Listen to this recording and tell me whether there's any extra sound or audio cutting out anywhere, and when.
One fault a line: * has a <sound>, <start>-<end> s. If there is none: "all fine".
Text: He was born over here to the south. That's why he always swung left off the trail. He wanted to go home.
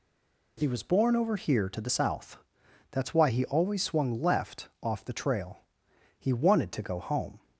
all fine